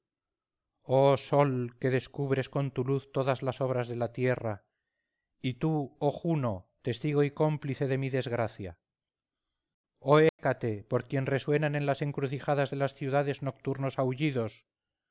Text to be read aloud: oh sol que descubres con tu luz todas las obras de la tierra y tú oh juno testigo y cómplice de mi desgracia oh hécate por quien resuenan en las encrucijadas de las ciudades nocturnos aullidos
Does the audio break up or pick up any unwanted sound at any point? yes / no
yes